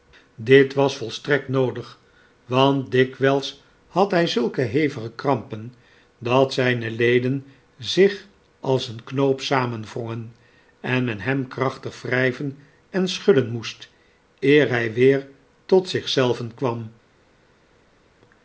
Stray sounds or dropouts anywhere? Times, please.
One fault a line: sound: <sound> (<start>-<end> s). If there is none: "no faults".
no faults